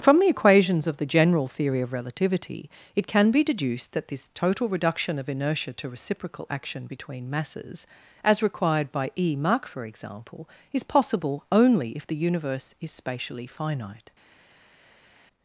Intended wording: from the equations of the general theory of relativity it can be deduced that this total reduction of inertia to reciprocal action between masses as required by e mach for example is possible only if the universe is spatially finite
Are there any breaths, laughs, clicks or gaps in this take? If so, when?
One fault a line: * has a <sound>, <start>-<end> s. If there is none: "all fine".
all fine